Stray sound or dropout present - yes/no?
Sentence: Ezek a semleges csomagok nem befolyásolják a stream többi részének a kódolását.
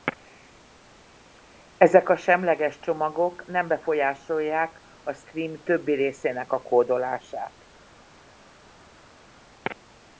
no